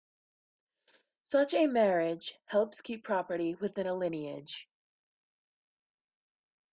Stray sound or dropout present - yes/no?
no